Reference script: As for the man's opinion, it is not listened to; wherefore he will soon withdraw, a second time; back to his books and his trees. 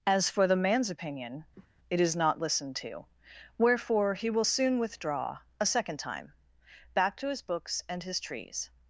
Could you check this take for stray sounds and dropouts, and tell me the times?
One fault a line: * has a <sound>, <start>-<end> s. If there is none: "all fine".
* has a cough, 1.6-1.7 s